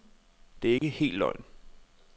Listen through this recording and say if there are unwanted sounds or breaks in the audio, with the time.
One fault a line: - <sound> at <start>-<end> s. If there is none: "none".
- dropout at 0.8-0.8 s